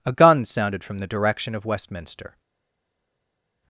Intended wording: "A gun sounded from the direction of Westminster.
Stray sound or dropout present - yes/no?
no